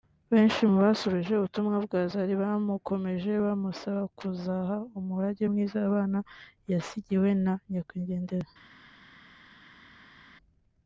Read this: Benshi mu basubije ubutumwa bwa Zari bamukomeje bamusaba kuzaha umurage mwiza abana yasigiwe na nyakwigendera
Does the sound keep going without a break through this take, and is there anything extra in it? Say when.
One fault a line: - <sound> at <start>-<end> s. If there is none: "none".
none